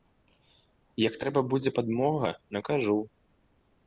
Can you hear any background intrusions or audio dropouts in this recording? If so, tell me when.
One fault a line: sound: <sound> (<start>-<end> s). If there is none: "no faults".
no faults